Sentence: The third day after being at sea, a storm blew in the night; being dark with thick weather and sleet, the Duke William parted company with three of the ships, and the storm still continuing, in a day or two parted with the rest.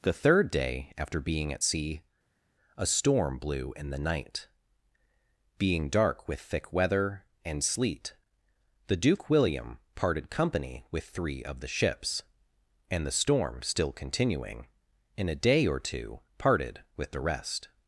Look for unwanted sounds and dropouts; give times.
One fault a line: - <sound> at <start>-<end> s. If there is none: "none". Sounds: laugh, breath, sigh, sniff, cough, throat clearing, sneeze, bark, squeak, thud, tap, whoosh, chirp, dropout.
none